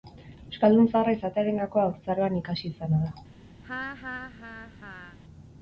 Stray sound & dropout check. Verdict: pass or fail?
fail